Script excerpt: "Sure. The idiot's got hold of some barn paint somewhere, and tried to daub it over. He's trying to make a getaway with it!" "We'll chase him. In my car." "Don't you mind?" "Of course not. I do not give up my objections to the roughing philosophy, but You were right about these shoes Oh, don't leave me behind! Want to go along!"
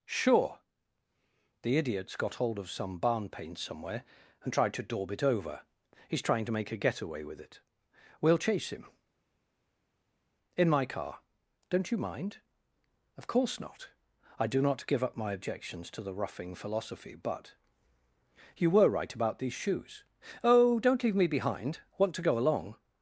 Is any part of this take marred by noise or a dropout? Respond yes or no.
no